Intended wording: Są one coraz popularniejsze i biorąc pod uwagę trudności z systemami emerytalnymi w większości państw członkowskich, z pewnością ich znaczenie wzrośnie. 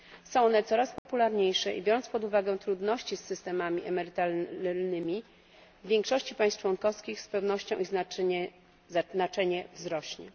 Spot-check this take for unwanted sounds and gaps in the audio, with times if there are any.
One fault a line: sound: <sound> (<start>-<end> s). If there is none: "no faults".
sound: dropout (1.0-1.1 s)